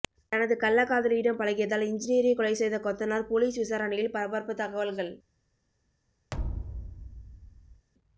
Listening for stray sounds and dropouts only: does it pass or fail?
fail